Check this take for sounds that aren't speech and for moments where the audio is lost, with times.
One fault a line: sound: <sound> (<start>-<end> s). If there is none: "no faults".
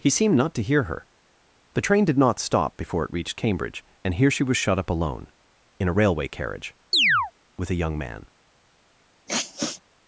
sound: chirp (6.9-7.3 s)
sound: sniff (9.3-9.8 s)